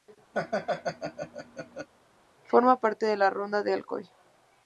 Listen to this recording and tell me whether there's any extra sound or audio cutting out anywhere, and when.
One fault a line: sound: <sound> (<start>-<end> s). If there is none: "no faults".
sound: laugh (0.3-1.9 s)